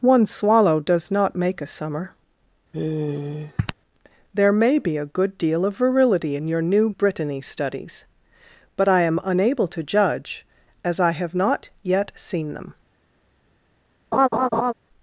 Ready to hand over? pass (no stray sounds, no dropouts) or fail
fail